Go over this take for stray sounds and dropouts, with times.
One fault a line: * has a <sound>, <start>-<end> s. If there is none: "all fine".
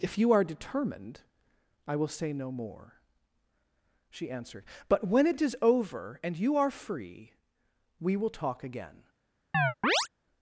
* has a chirp, 9.5-10.1 s